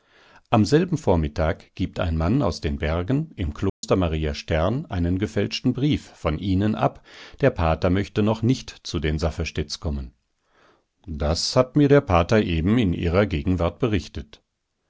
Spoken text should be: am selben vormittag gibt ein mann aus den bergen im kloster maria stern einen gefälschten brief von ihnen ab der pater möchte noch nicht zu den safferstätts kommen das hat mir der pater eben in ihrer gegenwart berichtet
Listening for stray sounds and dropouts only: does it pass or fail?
fail